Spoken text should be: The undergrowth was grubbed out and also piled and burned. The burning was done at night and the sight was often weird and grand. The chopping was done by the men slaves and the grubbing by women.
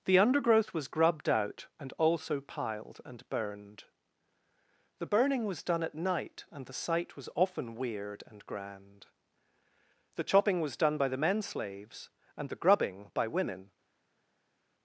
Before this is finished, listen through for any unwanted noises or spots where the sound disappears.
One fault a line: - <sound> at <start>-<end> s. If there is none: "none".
none